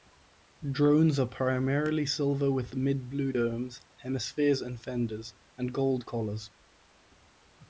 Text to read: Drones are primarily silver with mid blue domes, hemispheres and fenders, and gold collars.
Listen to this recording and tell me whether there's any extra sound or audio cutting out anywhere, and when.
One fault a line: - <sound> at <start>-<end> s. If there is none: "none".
none